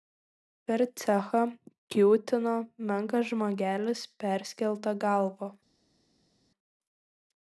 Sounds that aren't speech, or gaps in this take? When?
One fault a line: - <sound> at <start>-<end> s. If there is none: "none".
none